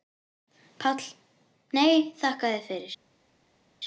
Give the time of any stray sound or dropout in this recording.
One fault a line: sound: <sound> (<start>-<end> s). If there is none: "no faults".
no faults